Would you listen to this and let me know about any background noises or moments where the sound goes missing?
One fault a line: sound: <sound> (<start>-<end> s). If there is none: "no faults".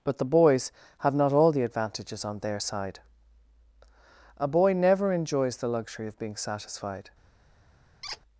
sound: squeak (8.0-8.2 s)